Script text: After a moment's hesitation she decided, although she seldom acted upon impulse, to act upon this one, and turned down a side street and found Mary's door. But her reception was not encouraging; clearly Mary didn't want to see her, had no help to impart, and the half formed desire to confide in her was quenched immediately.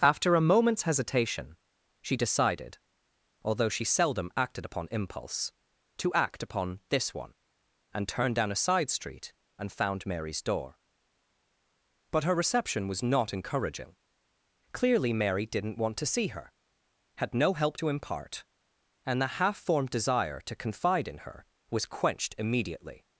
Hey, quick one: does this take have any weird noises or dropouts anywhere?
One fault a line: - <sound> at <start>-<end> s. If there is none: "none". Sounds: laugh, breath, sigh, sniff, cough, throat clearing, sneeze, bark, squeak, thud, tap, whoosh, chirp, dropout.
none